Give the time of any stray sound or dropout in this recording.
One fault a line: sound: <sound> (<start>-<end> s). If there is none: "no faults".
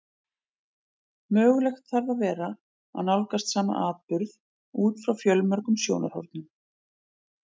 no faults